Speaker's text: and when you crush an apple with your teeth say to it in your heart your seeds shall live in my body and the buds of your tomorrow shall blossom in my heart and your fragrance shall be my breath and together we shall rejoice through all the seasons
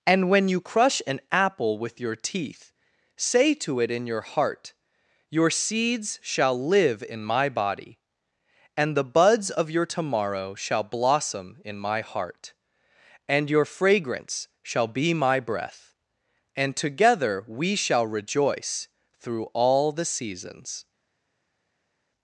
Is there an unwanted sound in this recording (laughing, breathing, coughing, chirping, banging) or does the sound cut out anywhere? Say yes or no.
no